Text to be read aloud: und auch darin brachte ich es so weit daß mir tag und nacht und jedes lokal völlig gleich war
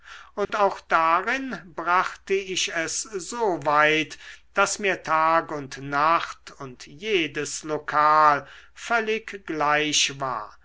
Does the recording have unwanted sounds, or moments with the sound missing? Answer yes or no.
yes